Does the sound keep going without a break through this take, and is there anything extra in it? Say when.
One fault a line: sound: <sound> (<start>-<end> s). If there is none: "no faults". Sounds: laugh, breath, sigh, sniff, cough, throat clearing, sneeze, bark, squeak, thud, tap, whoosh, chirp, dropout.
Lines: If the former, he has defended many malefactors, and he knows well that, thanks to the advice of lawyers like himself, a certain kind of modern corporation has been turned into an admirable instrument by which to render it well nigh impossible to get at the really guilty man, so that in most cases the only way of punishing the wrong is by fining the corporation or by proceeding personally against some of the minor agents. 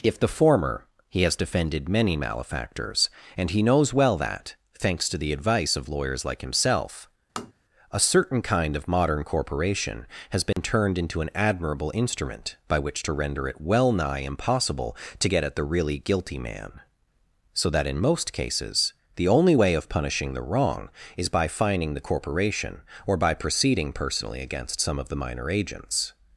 sound: tap (7.4-7.5 s)
sound: dropout (10.5-10.6 s)